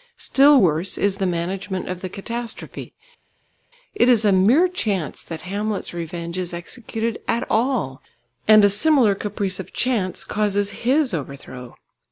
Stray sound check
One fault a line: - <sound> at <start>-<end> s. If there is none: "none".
none